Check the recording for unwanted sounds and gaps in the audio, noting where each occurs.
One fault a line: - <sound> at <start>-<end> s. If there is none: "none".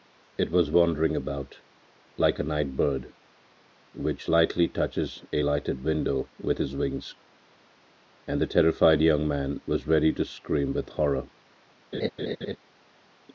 - laugh at 11.9-12.6 s